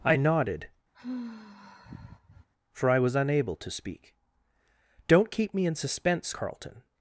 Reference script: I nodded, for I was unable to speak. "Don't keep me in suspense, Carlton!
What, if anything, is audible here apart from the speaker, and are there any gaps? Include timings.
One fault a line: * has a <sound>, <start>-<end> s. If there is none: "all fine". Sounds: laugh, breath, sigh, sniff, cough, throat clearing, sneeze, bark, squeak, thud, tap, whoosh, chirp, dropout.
* has a sigh, 0.9-2.5 s